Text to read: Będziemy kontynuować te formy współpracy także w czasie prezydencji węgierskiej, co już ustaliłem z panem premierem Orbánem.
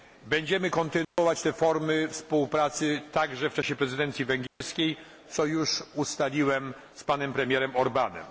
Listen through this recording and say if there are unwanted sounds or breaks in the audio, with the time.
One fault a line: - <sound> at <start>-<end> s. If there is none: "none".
- dropout at 1.0-1.2 s
- dropout at 4.5-4.6 s